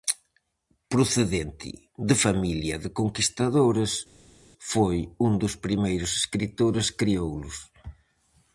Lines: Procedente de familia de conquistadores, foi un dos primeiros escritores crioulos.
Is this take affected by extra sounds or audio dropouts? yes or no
no